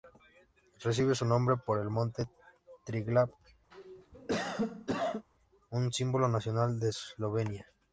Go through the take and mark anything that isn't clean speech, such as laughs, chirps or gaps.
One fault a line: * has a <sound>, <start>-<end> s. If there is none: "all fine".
* has a cough, 3.7-5.3 s